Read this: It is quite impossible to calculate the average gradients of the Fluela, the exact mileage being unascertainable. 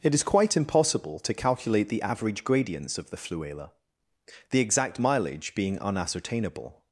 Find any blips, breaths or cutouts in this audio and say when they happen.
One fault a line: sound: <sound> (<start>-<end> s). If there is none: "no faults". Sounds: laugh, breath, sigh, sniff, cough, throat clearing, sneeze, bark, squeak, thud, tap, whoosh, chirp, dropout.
no faults